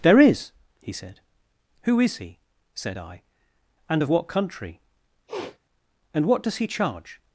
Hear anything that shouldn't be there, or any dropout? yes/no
yes